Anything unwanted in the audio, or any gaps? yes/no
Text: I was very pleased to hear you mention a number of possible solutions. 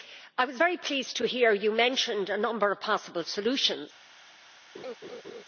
yes